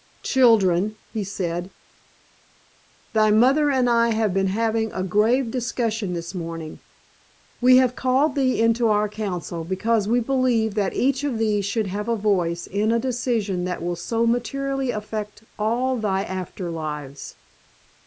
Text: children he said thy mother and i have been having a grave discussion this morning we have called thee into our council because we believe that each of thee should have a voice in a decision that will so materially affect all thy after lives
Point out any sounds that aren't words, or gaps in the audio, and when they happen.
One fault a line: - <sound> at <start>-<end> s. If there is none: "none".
none